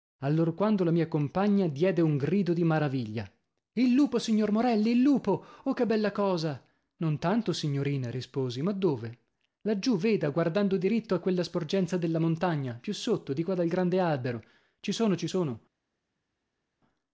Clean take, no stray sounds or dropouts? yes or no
yes